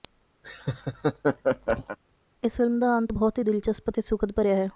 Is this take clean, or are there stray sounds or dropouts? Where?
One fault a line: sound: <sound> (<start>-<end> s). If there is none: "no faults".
sound: laugh (0.4-2.0 s)